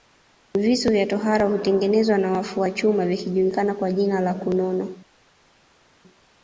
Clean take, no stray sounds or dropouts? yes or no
yes